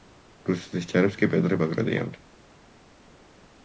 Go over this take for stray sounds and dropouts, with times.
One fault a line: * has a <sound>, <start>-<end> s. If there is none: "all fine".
all fine